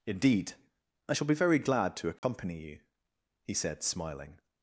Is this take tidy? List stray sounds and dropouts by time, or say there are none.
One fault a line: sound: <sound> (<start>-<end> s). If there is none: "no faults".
sound: dropout (2.2-2.2 s)